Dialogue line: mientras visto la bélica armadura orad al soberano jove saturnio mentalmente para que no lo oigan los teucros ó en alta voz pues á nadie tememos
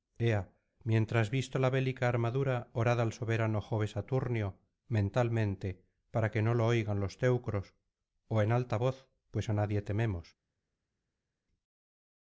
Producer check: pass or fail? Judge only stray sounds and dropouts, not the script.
pass